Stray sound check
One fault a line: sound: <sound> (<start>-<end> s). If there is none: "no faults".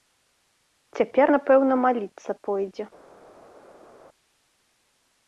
no faults